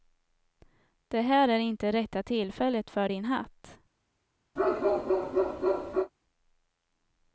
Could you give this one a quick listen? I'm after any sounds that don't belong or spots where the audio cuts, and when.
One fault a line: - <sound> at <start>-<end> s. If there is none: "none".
- bark at 4.6-6.1 s